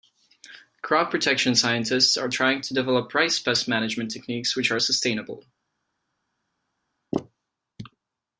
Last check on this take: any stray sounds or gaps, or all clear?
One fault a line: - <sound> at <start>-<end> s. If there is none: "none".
none